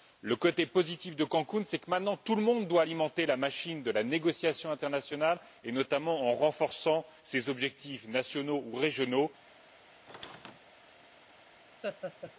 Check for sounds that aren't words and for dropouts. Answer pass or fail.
fail